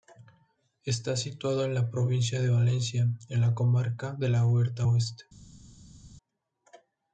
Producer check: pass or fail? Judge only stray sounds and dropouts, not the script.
pass